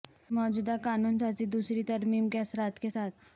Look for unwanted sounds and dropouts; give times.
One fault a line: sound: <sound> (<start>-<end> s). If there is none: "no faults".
no faults